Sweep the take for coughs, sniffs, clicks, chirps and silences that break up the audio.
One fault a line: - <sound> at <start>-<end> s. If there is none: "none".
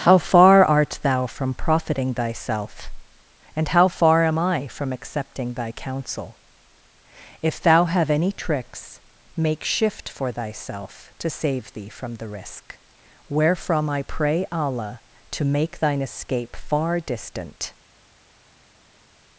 none